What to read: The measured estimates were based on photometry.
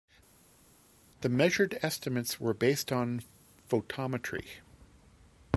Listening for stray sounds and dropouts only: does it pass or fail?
pass